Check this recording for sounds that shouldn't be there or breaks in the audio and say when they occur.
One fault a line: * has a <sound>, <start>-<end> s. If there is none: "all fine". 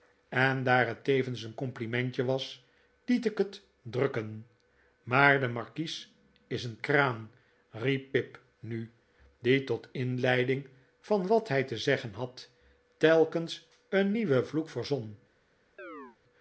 * has a chirp, 15.8-16.2 s